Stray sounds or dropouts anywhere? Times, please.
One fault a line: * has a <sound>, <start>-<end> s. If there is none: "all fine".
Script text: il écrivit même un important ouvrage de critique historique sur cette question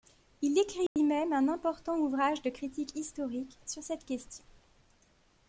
* has a dropout, 0.9-1.0 s